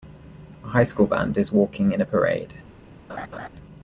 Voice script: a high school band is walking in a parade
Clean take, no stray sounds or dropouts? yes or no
no